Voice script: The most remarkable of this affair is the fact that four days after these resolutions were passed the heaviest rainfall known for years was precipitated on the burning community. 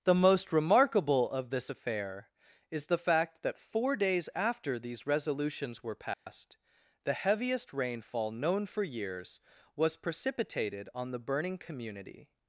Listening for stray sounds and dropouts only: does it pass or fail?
fail